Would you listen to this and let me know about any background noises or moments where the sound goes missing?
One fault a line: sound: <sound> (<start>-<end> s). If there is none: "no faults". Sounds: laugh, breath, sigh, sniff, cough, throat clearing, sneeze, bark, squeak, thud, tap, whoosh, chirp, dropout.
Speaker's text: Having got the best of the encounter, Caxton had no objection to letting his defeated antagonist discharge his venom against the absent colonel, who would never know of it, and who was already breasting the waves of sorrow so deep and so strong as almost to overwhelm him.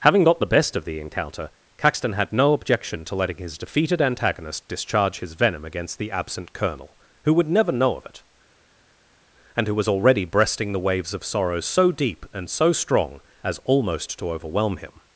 no faults